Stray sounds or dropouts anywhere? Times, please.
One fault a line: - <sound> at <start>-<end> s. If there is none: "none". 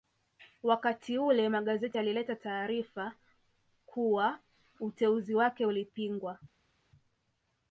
none